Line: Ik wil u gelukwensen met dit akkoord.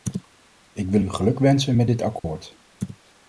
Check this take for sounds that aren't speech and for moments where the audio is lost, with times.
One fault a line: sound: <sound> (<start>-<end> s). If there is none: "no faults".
sound: dropout (2.2-2.2 s)